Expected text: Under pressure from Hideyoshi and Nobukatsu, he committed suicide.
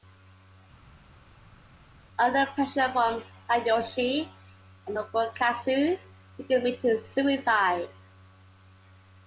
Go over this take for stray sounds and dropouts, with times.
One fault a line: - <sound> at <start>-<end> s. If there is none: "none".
none